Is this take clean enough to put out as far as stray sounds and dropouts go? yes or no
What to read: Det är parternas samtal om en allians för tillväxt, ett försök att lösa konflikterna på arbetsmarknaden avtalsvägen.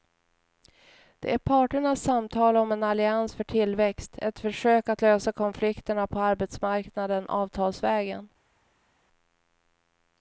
yes